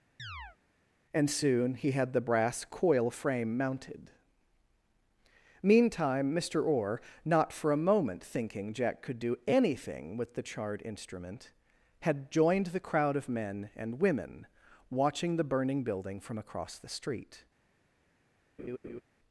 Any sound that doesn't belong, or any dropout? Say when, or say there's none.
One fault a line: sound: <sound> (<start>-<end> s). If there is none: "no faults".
sound: chirp (0.2-0.6 s)
sound: laugh (18.6-19.0 s)